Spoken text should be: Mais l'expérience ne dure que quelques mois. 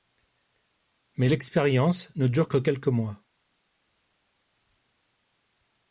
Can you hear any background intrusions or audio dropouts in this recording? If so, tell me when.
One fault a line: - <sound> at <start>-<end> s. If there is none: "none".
none